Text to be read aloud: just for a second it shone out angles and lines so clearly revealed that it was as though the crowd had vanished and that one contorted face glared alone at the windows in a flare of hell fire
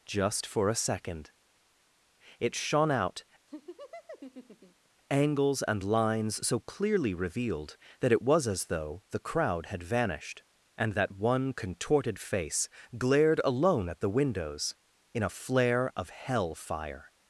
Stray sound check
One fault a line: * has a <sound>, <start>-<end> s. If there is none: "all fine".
* has a laugh, 3.5-4.9 s